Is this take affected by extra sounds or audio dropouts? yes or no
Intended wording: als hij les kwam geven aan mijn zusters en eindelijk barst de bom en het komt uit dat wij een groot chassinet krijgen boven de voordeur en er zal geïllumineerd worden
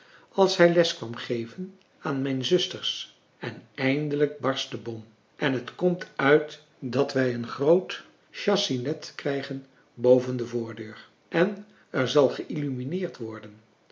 no